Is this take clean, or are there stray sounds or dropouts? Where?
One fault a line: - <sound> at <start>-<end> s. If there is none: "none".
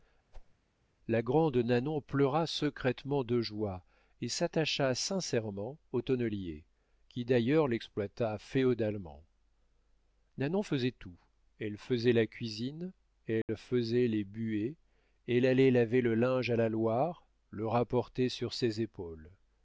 - whoosh at 0.3-0.6 s
- dropout at 13.4-13.5 s